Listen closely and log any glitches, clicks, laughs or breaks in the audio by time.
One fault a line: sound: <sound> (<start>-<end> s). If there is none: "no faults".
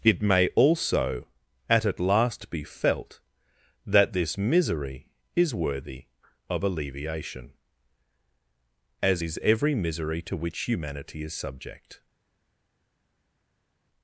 no faults